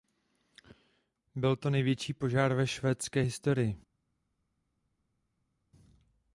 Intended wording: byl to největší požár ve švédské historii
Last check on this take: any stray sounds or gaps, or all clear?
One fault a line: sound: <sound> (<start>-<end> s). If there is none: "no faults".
no faults